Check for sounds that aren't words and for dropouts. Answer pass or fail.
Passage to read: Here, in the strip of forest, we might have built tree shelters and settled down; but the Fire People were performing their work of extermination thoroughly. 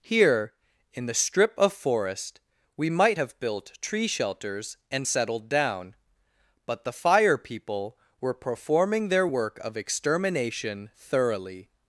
pass